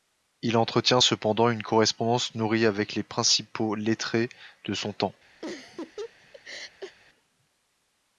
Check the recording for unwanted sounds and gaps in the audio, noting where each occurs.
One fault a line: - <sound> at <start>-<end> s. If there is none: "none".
- laugh at 5.4-7.0 s